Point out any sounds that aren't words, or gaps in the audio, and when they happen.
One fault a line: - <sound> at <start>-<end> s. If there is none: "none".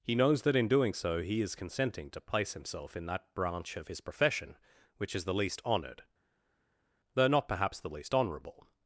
none